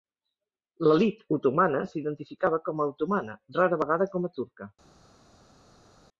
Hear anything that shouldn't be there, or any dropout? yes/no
no